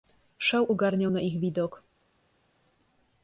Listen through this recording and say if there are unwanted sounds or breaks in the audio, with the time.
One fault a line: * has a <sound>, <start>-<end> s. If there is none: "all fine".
all fine